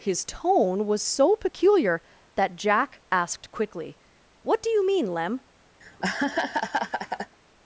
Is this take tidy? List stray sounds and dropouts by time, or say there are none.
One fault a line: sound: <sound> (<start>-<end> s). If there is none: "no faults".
sound: laugh (5.8-7.4 s)